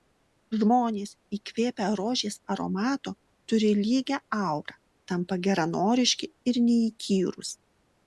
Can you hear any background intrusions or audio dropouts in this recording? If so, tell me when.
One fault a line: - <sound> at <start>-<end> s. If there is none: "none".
none